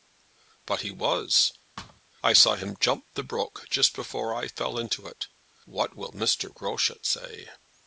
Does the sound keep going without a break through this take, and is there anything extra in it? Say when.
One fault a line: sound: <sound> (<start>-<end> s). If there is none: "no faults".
sound: thud (1.8-2.0 s)